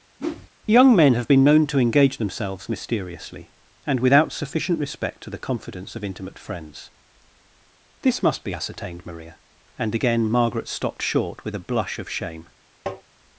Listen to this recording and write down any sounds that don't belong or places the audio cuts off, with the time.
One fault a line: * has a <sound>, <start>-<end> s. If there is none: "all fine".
* has a whoosh, 0.2-0.5 s
* has a tap, 12.9-13.0 s